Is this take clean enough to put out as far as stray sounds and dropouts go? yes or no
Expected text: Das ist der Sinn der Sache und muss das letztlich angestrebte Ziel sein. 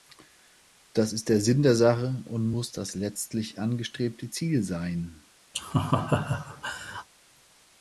no